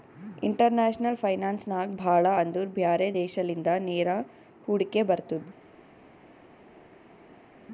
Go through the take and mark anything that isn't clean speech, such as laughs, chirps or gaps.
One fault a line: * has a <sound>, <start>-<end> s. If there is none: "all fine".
all fine